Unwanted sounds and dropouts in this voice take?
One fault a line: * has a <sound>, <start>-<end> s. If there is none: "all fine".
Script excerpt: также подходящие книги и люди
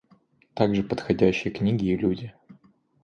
all fine